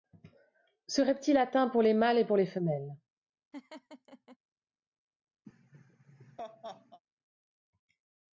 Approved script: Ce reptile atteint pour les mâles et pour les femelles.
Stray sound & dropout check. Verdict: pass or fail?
fail